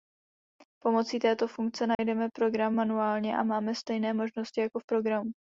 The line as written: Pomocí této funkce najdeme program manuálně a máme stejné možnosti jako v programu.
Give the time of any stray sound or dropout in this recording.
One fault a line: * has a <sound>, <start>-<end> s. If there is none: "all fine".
* has a dropout, 1.9-2.0 s